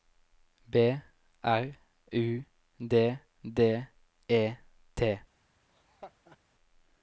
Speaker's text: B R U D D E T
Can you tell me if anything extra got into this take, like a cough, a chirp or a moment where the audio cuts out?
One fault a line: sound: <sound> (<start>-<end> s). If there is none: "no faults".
sound: laugh (5.7-6.4 s)